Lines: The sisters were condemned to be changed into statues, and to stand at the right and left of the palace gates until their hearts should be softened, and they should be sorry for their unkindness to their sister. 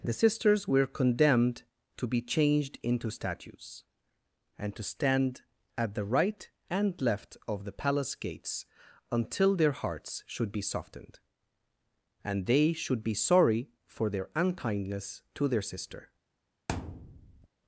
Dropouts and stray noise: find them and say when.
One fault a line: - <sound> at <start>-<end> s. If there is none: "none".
- thud at 16.7-17.5 s